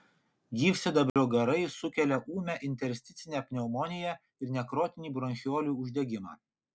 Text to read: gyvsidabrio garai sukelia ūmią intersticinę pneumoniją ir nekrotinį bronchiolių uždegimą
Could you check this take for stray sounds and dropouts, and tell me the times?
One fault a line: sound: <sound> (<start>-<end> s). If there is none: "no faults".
sound: dropout (1.1-1.2 s)